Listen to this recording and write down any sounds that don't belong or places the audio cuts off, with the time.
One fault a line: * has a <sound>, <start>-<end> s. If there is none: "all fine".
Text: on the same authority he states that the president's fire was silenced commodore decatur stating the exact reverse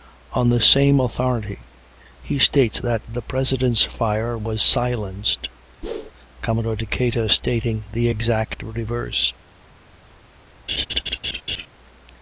* has a whoosh, 5.8-6.1 s
* has a laugh, 10.7-11.7 s